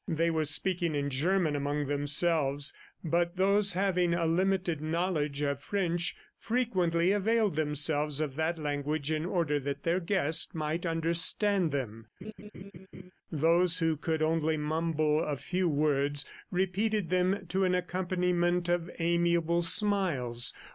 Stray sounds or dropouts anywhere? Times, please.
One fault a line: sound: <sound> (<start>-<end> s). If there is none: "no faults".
sound: laugh (12.2-13.1 s)